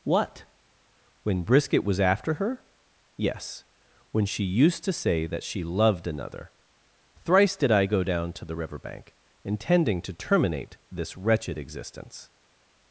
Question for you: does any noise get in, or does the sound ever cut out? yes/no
no